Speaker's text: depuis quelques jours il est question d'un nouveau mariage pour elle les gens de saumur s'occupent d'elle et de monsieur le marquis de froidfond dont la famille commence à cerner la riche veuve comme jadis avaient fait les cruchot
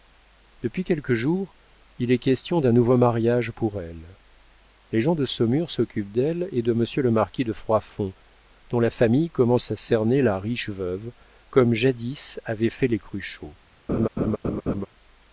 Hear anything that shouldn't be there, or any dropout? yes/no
yes